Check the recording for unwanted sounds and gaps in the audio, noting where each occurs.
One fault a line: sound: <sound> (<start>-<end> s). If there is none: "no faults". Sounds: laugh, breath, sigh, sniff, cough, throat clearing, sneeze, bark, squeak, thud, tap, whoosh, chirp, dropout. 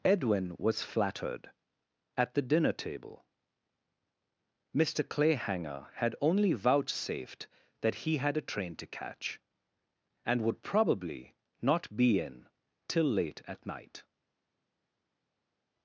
no faults